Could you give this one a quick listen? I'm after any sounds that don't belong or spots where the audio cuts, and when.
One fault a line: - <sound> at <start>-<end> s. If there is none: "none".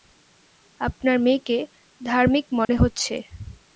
- dropout at 2.6-2.7 s